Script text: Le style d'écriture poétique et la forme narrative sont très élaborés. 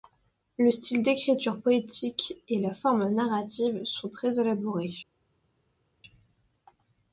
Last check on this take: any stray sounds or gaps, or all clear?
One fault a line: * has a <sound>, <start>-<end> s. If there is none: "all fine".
all fine